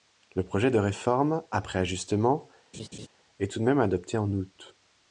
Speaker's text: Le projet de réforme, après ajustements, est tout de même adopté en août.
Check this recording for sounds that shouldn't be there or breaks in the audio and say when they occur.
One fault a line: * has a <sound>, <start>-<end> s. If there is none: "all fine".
* has a laugh, 2.7-3.1 s